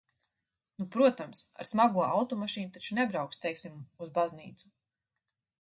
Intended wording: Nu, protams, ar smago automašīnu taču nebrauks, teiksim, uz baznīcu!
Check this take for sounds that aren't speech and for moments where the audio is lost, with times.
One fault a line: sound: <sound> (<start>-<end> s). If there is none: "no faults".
no faults